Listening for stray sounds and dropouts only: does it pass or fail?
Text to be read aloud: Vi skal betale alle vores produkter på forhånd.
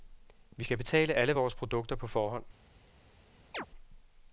fail